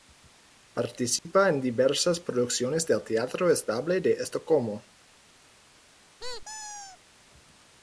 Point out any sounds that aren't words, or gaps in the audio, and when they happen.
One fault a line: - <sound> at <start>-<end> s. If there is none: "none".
- dropout at 1.2-1.3 s
- squeak at 6.2-7.0 s